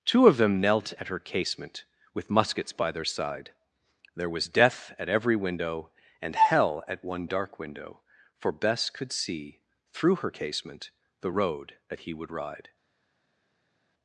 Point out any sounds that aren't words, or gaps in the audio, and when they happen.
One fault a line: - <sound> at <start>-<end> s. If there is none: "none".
none